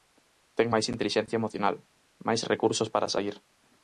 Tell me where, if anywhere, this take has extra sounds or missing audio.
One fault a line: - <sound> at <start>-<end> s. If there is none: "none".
none